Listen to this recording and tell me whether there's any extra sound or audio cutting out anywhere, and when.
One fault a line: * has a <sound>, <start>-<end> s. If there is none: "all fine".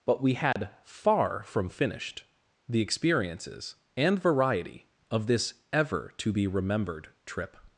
* has a dropout, 0.5-0.6 s